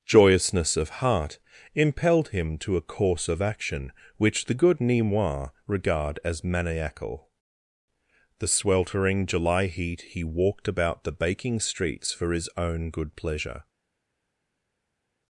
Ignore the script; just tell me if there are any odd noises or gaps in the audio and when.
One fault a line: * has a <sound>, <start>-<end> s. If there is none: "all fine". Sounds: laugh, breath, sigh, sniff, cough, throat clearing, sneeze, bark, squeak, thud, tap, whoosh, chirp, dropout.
all fine